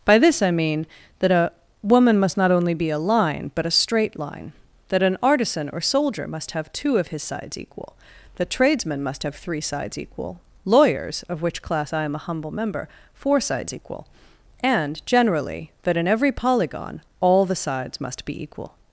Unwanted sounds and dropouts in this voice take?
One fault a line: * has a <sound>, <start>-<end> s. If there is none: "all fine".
all fine